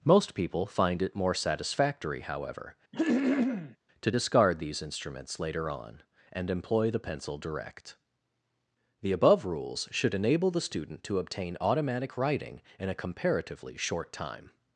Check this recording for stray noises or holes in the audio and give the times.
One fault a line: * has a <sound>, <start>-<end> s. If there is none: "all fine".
* has a throat clearing, 2.9-3.8 s